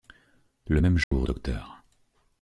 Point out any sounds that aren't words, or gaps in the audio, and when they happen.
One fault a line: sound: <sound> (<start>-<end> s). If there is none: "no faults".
sound: dropout (1.0-1.1 s)